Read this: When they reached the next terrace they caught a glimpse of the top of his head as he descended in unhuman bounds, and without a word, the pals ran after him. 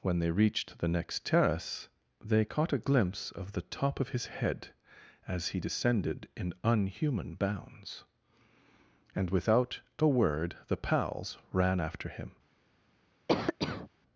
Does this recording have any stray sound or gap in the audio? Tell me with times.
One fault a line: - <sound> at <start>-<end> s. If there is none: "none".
- cough at 13.3-13.9 s